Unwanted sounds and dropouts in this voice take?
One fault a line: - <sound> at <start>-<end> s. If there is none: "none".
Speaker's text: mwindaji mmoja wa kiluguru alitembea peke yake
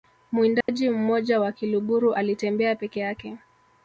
- dropout at 0.6-0.7 s